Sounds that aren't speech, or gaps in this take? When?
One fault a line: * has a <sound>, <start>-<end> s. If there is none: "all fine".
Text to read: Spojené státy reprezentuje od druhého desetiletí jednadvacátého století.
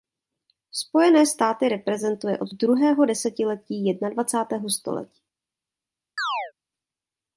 * has a chirp, 6.2-6.5 s